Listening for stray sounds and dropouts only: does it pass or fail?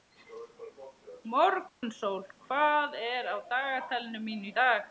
fail